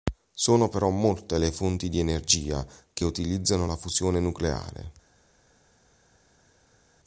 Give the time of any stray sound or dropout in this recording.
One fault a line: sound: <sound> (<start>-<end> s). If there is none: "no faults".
no faults